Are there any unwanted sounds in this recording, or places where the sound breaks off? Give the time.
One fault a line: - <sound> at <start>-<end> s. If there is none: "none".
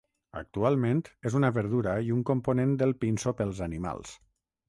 none